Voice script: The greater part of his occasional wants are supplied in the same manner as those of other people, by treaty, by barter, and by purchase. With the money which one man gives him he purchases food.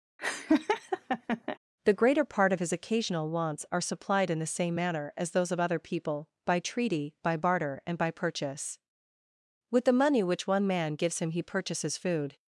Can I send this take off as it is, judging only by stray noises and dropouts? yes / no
no